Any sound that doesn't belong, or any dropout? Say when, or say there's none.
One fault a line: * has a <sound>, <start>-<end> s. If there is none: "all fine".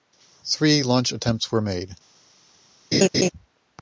* has a laugh, 2.9-3.3 s